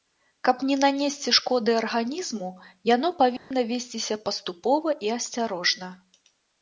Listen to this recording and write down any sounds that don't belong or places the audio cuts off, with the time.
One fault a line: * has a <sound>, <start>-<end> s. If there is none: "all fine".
* has a dropout, 3.4-3.5 s